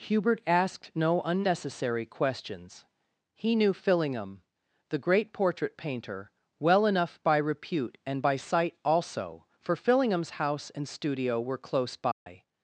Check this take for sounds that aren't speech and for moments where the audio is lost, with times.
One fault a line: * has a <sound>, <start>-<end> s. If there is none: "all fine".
* has a dropout, 12.1-12.3 s